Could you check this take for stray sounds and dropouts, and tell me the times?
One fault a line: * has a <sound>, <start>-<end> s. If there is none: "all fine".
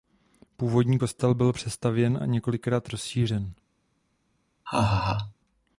* has a laugh, 4.7-5.3 s